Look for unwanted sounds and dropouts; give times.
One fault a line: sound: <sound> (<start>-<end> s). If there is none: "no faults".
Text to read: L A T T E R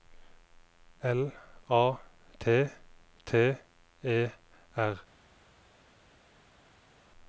no faults